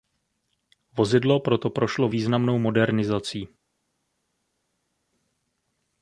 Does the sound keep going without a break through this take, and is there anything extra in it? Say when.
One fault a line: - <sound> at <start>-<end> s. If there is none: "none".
none